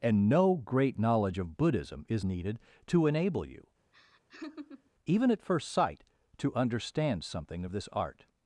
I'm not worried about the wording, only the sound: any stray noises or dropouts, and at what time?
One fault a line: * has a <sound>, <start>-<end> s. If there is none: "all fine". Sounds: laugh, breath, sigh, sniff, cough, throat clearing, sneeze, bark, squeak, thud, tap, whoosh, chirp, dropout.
* has a laugh, 3.9-4.9 s